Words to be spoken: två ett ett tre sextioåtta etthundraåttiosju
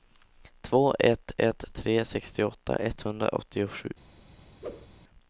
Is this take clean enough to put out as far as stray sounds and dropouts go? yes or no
no